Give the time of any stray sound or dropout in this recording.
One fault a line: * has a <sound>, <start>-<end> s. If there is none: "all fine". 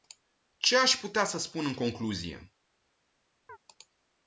* has a chirp, 3.5-3.6 s